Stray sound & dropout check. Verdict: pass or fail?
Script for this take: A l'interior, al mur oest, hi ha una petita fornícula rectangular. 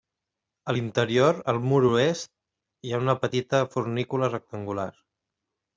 pass